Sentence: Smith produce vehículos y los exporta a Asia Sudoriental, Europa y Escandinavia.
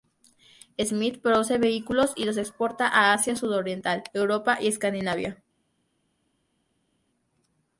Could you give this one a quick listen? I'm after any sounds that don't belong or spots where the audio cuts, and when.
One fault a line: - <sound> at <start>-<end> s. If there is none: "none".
none